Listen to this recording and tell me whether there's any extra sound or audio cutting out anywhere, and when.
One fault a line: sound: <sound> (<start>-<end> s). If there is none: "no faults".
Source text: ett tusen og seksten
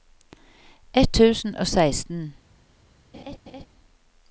sound: laugh (3.1-3.7 s)